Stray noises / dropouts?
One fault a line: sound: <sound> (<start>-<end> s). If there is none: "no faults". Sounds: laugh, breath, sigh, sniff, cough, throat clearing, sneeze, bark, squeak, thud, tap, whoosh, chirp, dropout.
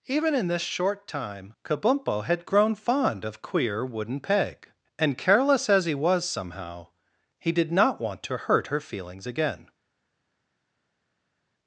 no faults